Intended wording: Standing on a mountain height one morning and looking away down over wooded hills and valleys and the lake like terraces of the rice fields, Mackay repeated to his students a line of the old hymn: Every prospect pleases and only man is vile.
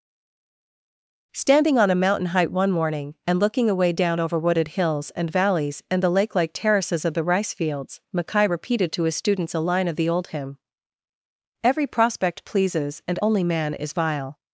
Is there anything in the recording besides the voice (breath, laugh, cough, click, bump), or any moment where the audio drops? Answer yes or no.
no